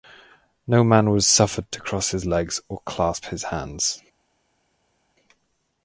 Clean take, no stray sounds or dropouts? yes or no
yes